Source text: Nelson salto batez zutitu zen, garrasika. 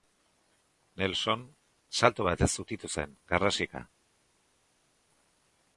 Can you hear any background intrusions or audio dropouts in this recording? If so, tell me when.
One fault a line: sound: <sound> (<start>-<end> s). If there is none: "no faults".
no faults